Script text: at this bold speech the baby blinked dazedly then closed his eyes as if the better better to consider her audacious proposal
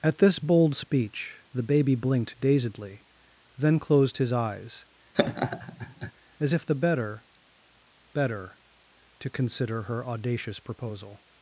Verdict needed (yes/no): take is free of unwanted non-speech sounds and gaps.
no